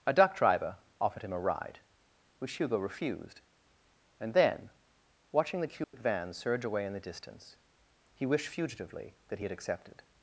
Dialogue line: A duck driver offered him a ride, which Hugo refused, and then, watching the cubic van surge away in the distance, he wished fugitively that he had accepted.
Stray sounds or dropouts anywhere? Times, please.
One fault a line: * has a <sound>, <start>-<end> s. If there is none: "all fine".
* has a dropout, 5.8-5.9 s